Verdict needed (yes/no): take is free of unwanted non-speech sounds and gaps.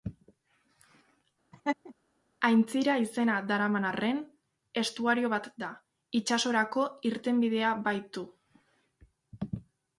no